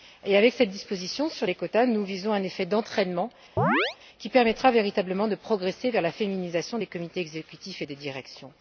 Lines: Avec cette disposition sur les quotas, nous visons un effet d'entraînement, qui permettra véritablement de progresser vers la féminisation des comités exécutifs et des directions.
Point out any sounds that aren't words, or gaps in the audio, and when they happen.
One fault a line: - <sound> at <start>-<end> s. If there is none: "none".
- chirp at 3.6-4.0 s